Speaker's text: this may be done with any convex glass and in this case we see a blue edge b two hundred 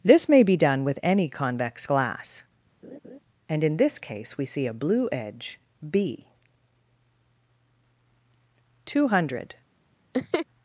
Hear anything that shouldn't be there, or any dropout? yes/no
yes